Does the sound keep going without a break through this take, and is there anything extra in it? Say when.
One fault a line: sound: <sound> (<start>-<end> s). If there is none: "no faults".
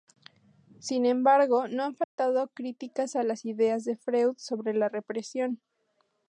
sound: dropout (2.0-2.2 s)